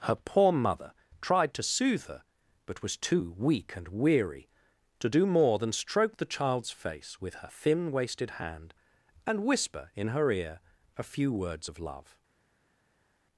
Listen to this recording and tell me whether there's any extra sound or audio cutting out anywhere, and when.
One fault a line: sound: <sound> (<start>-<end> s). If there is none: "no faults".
no faults